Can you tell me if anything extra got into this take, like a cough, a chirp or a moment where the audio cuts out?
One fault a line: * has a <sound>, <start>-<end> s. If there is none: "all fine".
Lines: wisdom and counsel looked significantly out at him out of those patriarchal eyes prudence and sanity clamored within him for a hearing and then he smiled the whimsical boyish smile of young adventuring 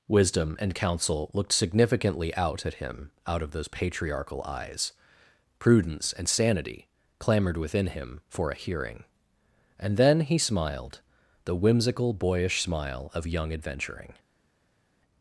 all fine